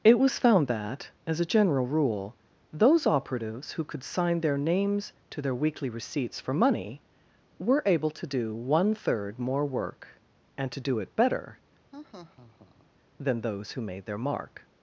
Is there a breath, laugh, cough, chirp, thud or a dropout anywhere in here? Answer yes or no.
yes